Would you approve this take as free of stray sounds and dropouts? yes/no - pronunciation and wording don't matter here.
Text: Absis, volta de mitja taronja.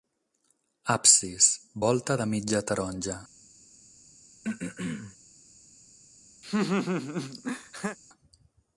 no